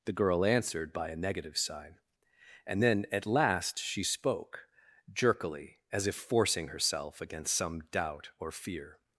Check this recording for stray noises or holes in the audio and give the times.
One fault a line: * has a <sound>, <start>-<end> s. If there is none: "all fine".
all fine